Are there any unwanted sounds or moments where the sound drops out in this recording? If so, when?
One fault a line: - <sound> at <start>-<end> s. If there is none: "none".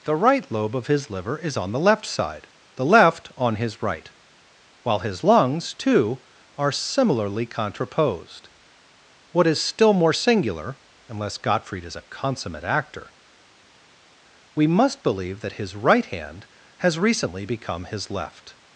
none